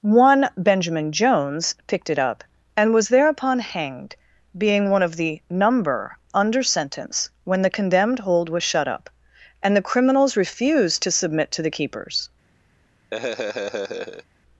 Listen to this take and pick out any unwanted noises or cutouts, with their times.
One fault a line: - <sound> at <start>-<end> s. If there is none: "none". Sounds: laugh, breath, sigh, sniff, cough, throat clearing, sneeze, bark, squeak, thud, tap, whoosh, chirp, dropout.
- laugh at 13.1-14.2 s